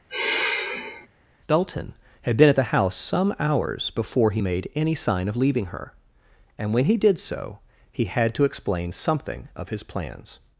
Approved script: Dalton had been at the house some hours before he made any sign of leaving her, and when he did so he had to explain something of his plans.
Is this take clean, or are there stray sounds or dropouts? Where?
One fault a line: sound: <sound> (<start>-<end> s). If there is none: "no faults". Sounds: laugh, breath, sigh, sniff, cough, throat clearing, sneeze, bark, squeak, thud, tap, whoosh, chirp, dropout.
sound: sigh (0.1-1.1 s)